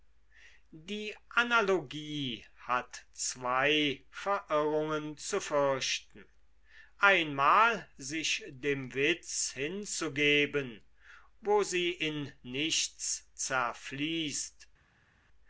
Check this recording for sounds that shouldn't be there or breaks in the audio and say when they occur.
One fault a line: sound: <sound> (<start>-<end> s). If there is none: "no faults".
no faults